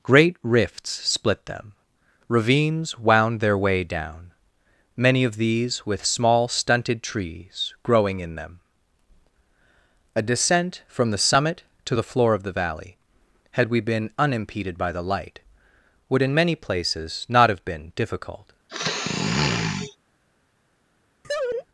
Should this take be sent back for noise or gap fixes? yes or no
yes